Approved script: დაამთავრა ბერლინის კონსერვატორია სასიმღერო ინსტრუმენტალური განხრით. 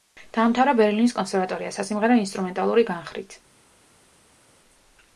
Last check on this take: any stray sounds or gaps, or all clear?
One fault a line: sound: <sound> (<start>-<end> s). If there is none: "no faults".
no faults